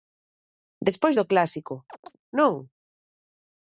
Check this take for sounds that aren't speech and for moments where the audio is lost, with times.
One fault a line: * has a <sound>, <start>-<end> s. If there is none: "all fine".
* has a chirp, 1.9-2.2 s